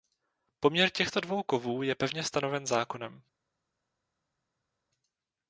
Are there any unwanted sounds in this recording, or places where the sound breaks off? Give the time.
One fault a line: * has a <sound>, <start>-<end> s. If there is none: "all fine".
all fine